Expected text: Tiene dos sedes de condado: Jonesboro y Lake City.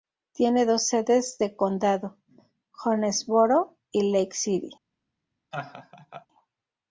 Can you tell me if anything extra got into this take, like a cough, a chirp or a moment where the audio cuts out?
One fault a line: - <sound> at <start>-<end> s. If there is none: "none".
- laugh at 5.5-6.3 s